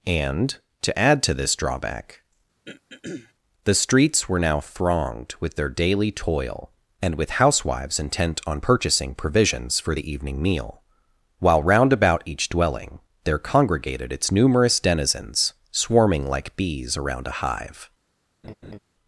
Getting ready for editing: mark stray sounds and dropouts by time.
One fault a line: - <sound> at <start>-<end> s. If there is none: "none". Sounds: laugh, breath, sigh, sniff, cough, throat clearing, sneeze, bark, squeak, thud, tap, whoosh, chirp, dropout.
- throat clearing at 2.7-3.3 s
- laugh at 18.4-18.8 s